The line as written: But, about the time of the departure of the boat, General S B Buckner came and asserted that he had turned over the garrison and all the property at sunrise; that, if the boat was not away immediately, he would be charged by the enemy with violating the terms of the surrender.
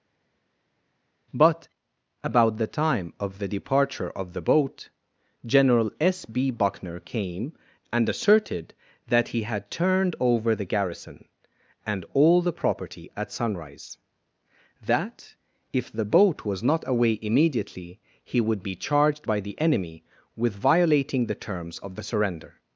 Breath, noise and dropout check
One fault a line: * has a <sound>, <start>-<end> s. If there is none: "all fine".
all fine